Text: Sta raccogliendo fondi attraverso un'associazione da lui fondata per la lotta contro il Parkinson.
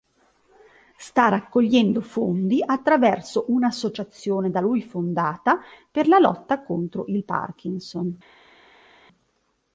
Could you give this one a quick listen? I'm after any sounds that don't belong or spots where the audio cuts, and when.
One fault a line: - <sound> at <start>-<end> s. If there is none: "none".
none